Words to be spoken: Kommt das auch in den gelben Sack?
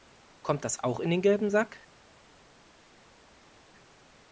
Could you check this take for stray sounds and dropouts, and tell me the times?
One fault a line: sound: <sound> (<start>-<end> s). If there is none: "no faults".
no faults